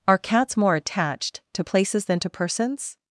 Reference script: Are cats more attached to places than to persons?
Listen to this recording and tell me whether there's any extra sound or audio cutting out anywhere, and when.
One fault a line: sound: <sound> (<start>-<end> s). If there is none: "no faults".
no faults